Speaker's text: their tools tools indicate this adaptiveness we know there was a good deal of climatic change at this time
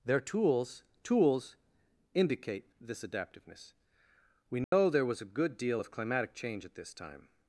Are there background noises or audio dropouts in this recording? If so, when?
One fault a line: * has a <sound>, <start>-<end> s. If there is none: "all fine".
* has a dropout, 4.6-4.7 s